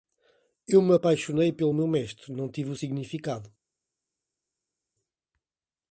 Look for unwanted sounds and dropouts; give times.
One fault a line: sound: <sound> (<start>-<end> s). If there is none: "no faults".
no faults